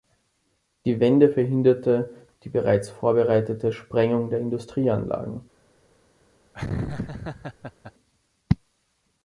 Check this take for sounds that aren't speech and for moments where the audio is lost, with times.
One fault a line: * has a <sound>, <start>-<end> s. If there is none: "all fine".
* has a laugh, 6.5-7.9 s